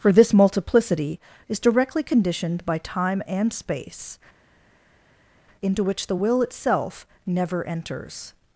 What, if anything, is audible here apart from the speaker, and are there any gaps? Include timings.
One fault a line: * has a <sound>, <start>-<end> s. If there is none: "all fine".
all fine